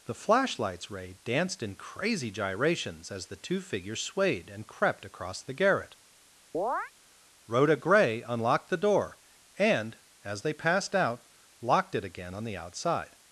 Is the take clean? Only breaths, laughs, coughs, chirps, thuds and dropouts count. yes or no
no